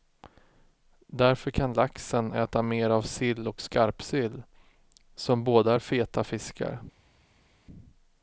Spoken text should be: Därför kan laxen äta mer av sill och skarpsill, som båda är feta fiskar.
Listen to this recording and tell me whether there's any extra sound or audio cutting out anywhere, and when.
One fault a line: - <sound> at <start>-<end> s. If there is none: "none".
none